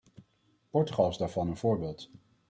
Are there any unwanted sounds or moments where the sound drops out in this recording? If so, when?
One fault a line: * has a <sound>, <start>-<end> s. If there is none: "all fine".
all fine